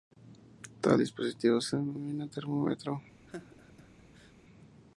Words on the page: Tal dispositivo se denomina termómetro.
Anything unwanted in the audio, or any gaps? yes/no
yes